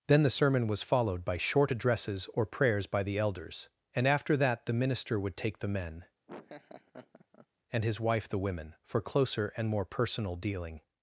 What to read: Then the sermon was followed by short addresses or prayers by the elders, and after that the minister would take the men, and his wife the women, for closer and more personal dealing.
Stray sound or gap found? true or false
true